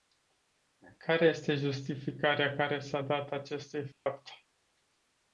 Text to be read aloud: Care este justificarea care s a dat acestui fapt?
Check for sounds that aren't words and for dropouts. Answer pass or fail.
fail